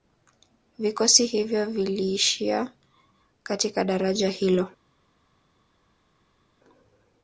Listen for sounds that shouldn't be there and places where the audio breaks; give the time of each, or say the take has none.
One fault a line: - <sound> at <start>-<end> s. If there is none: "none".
none